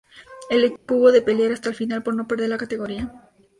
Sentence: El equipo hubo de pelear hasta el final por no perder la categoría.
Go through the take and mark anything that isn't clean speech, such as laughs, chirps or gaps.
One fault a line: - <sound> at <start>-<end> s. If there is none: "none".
- dropout at 0.8-0.9 s